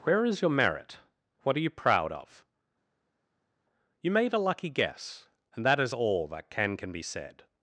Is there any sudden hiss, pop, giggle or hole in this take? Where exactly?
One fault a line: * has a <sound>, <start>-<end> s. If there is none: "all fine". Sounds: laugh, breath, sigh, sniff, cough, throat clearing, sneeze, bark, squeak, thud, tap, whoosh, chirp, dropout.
all fine